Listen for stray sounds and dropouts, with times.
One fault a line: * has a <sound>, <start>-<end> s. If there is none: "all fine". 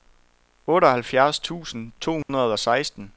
* has a dropout, 2.2-2.3 s